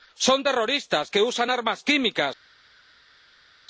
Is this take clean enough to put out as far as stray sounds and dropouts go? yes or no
yes